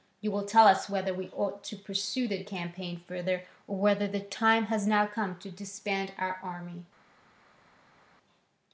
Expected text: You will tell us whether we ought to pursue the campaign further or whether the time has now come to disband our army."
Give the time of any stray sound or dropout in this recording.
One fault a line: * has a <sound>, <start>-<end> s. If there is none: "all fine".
all fine